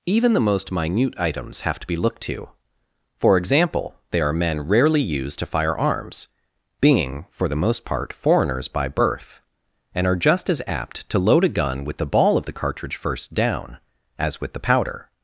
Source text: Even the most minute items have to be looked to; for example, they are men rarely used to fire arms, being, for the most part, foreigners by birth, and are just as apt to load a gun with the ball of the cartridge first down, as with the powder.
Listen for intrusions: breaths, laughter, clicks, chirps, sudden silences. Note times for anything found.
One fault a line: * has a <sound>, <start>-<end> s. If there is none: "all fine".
all fine